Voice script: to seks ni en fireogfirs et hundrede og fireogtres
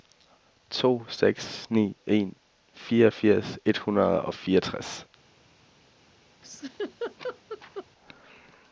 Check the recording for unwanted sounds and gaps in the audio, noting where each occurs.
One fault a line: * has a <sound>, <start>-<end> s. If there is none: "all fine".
* has a laugh, 6.4-7.9 s